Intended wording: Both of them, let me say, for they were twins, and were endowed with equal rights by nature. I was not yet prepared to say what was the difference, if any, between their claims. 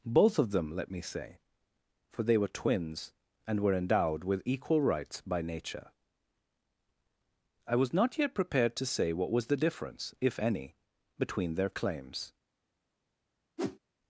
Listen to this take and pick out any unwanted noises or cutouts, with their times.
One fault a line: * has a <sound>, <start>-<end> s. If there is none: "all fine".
* has a whoosh, 13.6-13.8 s